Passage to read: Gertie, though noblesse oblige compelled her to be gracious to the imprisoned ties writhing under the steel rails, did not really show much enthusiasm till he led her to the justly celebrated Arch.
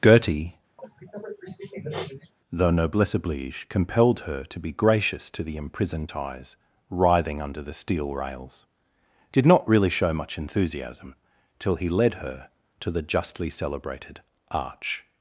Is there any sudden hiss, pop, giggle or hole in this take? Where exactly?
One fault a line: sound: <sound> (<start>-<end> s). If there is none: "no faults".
sound: sniff (0.8-2.3 s)